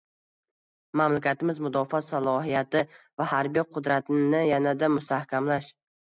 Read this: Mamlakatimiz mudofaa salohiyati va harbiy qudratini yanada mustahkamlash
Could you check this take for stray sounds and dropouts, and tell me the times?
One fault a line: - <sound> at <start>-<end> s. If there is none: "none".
none